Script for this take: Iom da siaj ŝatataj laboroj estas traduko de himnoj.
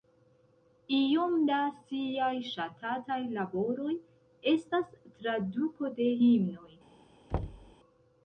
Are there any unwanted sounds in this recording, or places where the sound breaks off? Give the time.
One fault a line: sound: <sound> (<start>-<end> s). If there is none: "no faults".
sound: thud (7.3-7.8 s)